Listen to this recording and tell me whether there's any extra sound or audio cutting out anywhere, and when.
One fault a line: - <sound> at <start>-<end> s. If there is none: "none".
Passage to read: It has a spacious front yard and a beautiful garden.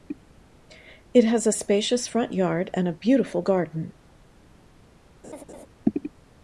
- laugh at 5.2-5.7 s